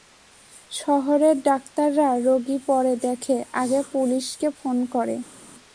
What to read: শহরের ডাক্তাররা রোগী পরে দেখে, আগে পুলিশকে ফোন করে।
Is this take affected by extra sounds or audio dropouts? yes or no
no